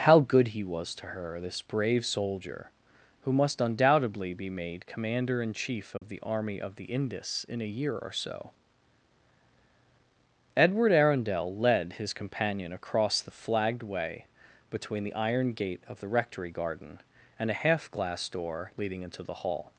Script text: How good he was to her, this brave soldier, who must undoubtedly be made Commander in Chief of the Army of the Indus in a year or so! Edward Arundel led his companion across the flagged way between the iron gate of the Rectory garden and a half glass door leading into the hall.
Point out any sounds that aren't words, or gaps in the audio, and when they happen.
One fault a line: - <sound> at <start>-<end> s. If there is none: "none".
- dropout at 6.0-6.0 s